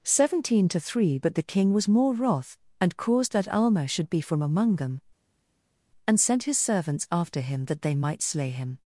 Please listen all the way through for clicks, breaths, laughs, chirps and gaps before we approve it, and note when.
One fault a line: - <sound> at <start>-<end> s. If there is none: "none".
none